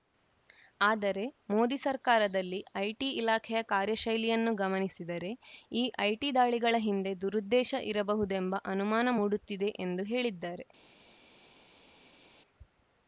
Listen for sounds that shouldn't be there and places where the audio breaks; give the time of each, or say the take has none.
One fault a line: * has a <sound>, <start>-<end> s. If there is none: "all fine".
all fine